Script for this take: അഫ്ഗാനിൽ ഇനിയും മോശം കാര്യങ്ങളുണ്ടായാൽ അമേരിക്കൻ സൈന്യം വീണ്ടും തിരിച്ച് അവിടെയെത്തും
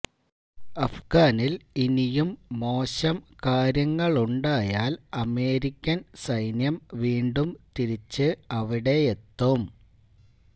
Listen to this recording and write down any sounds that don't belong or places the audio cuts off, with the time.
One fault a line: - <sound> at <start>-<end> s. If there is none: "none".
none